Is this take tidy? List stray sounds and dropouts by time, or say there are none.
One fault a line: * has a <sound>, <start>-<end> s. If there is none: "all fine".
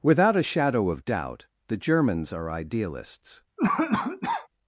* has a cough, 3.6-4.5 s